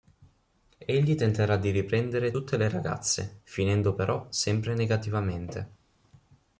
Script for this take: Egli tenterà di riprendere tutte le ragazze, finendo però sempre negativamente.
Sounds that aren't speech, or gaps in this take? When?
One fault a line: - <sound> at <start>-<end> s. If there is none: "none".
none